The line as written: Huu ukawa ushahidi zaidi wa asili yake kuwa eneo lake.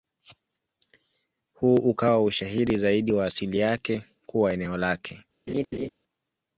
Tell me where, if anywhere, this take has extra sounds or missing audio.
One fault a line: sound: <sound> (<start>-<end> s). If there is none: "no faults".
sound: laugh (5.5-5.9 s)